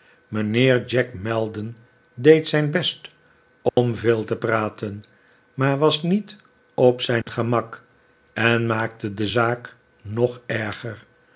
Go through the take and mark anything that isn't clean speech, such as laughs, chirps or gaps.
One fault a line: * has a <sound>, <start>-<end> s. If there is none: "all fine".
* has a dropout, 3.7-3.8 s
* has a dropout, 7.2-7.3 s